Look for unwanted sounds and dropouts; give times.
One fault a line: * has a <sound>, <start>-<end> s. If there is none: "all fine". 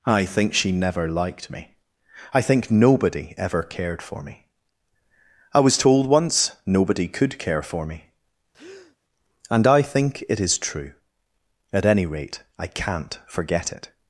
* has a breath, 8.5-9.0 s